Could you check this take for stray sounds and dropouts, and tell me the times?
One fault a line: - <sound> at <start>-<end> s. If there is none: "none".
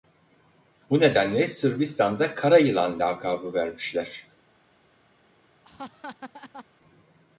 - laugh at 5.6-6.6 s